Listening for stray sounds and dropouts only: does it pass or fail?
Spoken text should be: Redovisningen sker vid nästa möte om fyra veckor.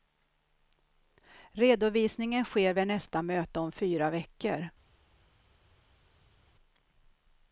pass